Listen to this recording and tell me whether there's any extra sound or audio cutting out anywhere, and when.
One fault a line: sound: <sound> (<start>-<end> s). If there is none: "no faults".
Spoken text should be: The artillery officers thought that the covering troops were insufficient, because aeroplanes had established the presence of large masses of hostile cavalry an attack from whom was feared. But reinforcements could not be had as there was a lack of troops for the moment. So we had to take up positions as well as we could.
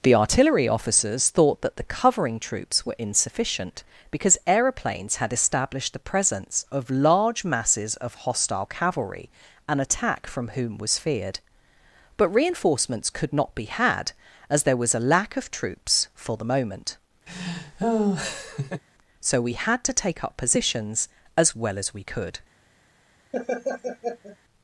sound: laugh (17.3-18.8 s)
sound: laugh (23.3-24.4 s)